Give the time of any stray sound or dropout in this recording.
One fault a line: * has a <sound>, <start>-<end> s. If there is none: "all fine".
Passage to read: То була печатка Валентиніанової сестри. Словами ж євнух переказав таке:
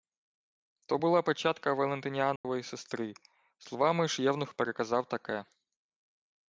* has a dropout, 2.4-2.4 s